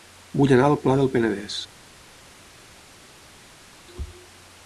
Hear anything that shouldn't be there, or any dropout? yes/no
no